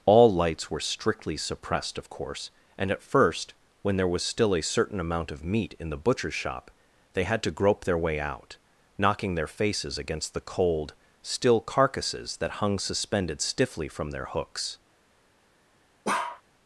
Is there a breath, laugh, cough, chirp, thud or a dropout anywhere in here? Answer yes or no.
yes